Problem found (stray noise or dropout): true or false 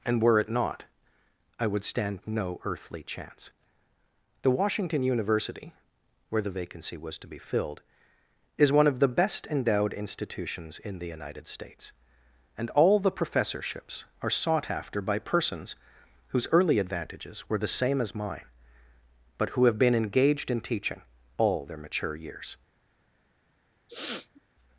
true